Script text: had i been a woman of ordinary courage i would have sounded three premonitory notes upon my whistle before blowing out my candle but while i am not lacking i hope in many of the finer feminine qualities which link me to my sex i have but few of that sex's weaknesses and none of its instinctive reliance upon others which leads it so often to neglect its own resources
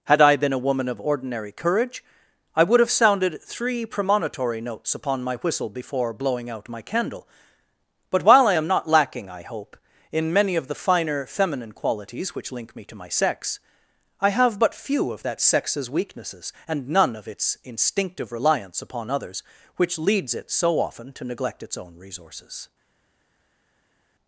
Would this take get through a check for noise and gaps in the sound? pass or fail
pass